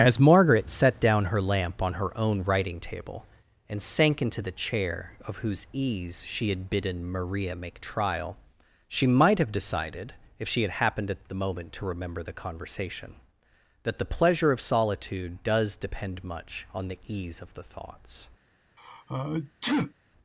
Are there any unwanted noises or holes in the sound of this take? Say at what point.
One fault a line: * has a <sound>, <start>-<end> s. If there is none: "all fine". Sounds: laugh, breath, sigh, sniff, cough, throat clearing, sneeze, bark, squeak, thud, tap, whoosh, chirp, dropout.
* has a sneeze, 18.8-19.9 s